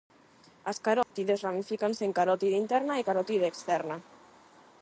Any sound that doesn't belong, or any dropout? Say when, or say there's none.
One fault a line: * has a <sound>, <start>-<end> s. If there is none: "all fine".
* has a dropout, 1.0-1.1 s